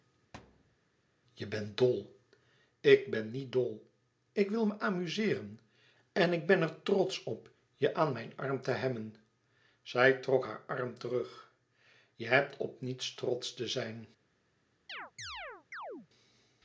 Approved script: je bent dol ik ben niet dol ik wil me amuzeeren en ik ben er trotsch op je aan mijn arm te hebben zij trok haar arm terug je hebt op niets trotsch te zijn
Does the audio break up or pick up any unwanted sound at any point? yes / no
yes